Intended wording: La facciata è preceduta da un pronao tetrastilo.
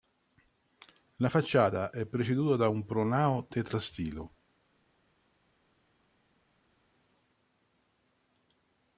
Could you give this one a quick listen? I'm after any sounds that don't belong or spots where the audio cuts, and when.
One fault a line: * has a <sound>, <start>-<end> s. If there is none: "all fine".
all fine